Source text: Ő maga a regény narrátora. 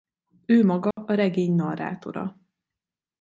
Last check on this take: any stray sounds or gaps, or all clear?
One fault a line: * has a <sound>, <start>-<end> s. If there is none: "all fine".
* has a dropout, 0.9-1.0 s